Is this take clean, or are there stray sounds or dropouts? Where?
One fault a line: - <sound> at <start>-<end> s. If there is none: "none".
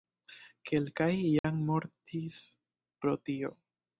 - dropout at 1.4-1.4 s